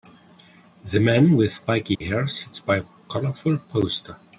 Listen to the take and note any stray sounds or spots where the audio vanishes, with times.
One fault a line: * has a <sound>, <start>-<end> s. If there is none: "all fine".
* has a dropout, 1.9-2.0 s